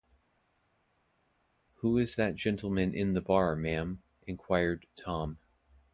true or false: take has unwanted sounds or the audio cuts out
false